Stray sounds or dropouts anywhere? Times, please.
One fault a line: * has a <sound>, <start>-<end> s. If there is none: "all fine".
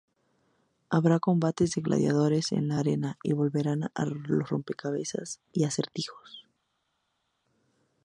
all fine